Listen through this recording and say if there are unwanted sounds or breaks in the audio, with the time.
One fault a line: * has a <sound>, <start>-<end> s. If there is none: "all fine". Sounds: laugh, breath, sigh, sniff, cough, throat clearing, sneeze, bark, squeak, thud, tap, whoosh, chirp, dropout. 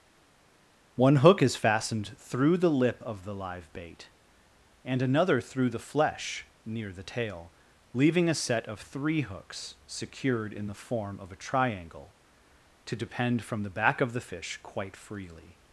all fine